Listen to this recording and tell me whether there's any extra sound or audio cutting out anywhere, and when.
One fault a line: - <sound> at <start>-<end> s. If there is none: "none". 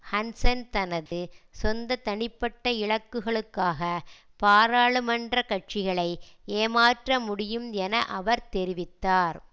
- dropout at 1.1-1.1 s